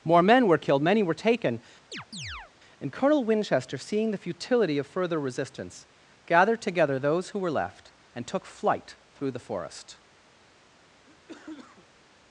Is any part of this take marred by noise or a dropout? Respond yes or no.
yes